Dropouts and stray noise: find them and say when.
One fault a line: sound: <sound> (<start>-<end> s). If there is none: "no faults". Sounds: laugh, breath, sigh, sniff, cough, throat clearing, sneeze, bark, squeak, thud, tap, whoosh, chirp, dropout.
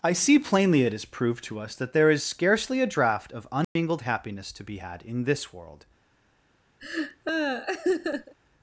sound: dropout (3.6-3.8 s)
sound: laugh (6.8-8.3 s)